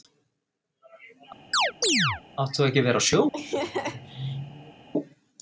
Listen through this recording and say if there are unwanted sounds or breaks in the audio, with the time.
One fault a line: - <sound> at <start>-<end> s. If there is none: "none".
- chirp at 1.5-2.2 s
- laugh at 3.3-4.9 s